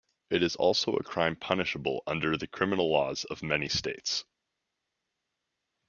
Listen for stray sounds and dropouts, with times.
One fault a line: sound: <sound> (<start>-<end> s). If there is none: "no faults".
no faults